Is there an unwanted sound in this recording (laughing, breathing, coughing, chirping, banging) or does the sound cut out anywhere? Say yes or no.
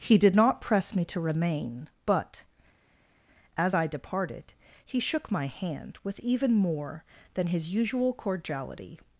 no